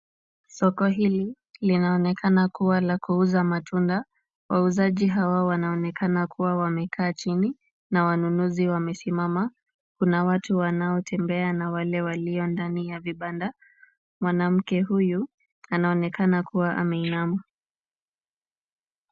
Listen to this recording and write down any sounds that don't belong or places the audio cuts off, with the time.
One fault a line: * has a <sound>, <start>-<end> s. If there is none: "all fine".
all fine